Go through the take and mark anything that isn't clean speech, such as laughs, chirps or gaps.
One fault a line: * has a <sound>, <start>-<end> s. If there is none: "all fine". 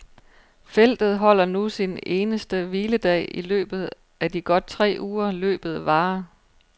all fine